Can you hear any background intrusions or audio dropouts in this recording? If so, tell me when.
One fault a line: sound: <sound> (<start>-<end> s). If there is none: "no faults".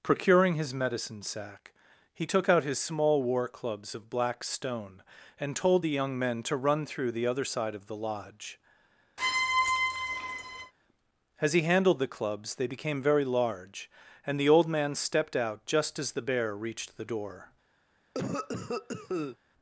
sound: squeak (9.2-10.7 s)
sound: cough (18.1-19.4 s)